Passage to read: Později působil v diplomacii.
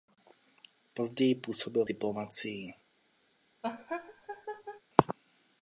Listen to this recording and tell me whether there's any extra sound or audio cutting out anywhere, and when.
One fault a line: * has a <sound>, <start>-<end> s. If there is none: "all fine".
* has a laugh, 3.6-4.8 s